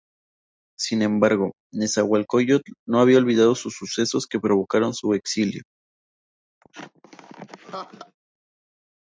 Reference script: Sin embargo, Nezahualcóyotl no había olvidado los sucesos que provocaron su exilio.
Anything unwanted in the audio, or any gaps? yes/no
yes